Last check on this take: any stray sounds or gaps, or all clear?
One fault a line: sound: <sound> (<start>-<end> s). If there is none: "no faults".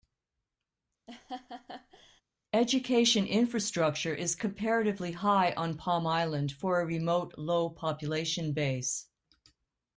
sound: laugh (1.1-2.2 s)